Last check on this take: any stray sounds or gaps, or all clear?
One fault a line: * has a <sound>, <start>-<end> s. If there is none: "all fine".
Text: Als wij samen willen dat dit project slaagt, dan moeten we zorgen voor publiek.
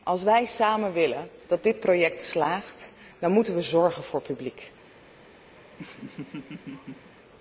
* has a laugh, 5.6-7.1 s